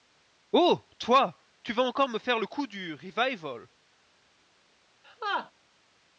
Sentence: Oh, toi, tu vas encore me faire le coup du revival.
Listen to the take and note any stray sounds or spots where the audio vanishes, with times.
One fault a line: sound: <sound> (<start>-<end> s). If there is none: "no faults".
sound: laugh (5.0-5.5 s)